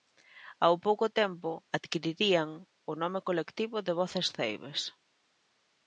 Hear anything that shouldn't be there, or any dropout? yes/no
no